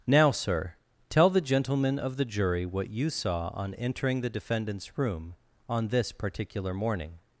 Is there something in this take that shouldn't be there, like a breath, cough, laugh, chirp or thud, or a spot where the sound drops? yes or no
no